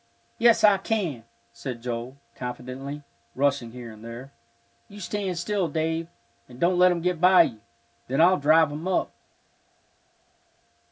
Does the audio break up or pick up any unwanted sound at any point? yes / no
no